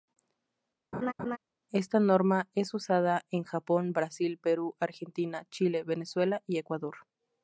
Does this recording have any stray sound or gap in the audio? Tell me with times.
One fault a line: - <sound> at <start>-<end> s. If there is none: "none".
- laugh at 0.9-1.4 s